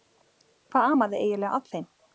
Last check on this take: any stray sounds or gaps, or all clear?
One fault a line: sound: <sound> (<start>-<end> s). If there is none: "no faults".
no faults